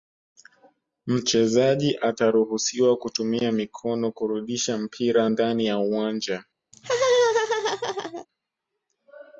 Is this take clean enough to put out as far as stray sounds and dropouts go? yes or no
no